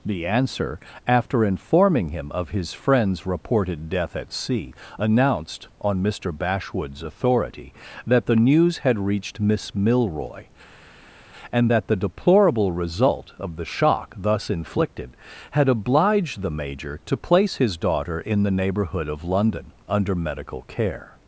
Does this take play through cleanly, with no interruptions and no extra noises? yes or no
yes